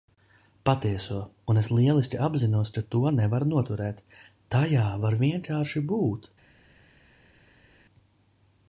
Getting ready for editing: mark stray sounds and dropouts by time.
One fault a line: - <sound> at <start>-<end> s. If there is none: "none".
none